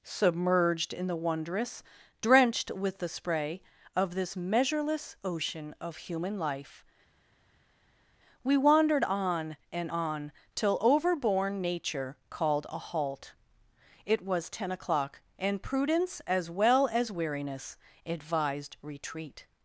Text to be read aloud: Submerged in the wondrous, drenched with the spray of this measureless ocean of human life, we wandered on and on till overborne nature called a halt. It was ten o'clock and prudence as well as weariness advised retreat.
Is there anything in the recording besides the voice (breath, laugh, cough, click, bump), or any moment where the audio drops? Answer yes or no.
no